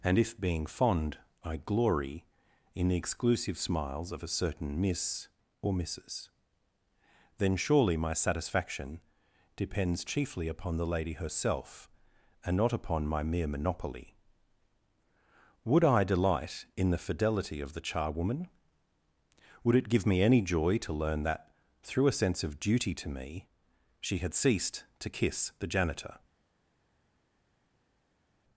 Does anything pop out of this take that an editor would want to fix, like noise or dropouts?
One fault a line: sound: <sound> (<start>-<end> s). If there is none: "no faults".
no faults